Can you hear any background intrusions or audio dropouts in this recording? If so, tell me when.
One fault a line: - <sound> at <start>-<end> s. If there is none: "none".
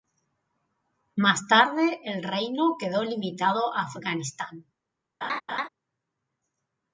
- laugh at 5.2-5.7 s